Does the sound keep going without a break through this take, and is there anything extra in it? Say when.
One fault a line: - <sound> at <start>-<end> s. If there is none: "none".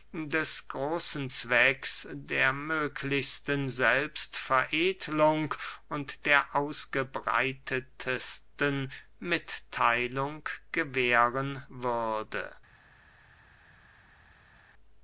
none